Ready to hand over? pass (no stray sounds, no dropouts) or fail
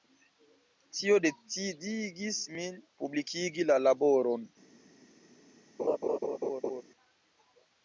fail